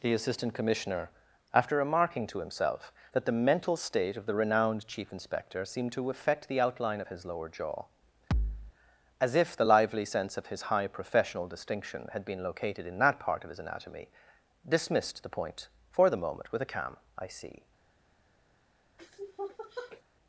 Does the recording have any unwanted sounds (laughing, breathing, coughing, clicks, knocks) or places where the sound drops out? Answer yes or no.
yes